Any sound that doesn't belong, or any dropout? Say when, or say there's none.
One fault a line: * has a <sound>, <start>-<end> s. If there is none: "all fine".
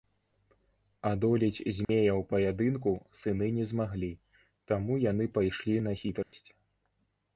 * has a dropout, 1.8-1.9 s
* has a dropout, 6.2-6.3 s